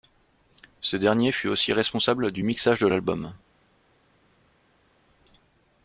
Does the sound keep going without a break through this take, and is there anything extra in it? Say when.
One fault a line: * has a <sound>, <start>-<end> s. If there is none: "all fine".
all fine